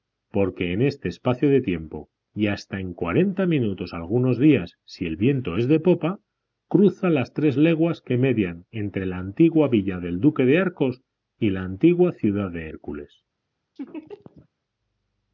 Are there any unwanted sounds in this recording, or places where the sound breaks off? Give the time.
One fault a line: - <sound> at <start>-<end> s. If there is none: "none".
- laugh at 13.8-14.5 s